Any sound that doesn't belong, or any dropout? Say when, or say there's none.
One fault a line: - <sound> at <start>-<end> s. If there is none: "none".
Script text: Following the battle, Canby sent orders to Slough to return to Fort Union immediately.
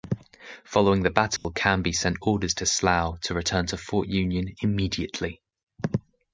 - dropout at 1.4-1.4 s